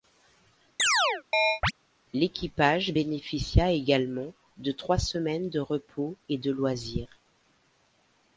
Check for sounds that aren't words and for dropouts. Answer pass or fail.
fail